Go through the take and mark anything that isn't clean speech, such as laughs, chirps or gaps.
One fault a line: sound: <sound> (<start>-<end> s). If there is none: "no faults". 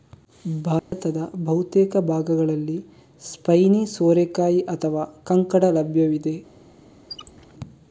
sound: dropout (0.8-0.9 s)
sound: squeak (7.1-7.5 s)